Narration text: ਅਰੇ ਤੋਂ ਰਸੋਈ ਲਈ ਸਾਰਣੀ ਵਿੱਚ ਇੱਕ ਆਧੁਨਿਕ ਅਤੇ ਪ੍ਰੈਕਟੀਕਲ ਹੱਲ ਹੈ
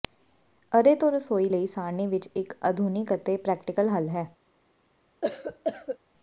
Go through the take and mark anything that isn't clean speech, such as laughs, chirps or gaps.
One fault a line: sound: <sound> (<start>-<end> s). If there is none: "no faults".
sound: cough (5.2-6.0 s)